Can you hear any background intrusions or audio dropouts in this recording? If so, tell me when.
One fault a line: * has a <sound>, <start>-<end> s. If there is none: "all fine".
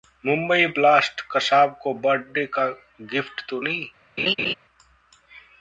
* has a laugh, 4.2-4.5 s